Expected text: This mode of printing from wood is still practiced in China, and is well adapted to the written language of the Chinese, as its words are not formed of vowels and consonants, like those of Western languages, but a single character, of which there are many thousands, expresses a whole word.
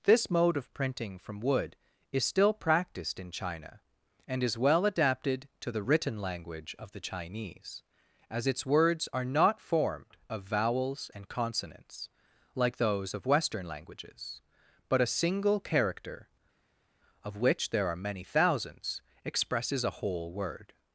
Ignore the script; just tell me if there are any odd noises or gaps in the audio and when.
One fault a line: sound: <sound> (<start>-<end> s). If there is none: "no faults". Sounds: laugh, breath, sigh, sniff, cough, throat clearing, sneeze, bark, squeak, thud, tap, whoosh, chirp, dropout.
no faults